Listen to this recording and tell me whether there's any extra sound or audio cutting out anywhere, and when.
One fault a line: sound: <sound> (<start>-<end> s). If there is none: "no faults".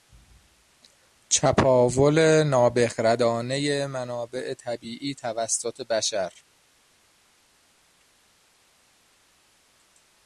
no faults